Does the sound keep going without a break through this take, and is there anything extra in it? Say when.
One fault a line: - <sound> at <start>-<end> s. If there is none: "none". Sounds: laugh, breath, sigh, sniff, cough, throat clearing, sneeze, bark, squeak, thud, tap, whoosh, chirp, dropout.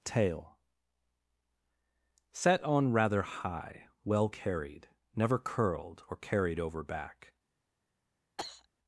- cough at 8.4-8.7 s